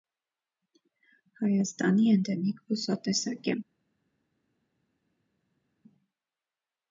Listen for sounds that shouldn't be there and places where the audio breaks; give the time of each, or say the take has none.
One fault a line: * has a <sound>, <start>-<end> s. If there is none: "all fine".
all fine